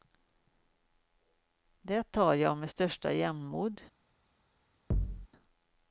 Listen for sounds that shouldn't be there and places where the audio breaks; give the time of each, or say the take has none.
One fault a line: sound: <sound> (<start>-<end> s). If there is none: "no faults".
sound: thud (4.9-5.3 s)